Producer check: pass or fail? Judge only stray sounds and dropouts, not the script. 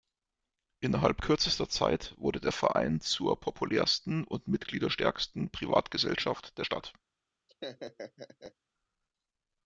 fail